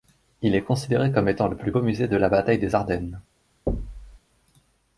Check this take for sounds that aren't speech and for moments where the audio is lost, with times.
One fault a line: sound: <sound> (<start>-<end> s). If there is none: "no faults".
sound: thud (3.7-4.2 s)